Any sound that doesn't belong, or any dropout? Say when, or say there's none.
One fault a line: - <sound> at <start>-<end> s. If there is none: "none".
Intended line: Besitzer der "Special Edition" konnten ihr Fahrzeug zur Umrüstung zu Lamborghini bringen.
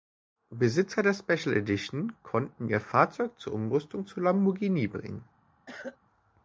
- cough at 5.7-6.0 s